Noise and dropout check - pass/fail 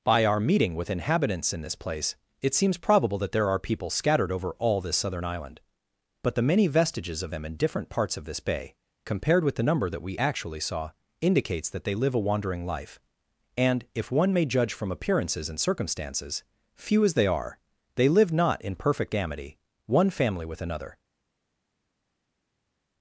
pass